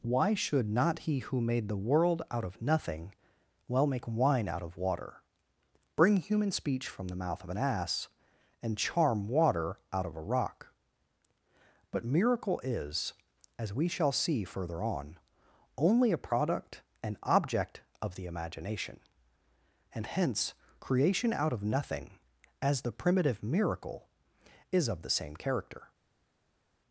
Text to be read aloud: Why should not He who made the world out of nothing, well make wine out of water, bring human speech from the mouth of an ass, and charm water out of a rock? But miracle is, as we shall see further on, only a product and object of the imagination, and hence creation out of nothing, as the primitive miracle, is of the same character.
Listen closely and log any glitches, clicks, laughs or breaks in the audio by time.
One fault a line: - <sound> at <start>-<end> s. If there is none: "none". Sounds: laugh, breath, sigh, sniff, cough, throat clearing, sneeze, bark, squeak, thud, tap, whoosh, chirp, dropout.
none